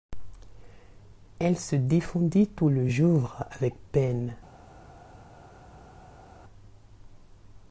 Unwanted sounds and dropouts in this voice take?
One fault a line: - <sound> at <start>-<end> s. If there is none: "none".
none